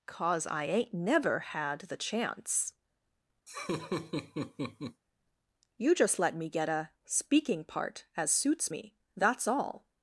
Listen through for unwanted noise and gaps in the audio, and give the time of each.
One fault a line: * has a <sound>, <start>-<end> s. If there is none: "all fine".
* has a laugh, 3.5-5.0 s